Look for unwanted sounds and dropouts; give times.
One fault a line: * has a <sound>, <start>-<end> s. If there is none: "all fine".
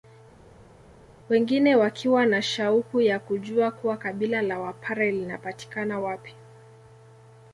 all fine